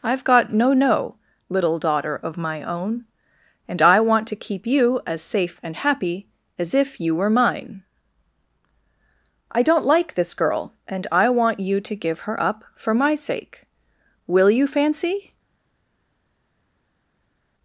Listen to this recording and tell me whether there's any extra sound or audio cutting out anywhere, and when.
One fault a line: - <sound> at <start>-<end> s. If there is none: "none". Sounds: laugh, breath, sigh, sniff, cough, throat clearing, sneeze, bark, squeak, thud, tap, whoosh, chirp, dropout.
none